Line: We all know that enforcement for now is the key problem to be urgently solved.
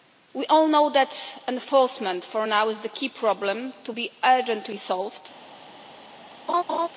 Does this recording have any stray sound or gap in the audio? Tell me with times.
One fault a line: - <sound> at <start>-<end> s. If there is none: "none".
- laugh at 6.5-6.9 s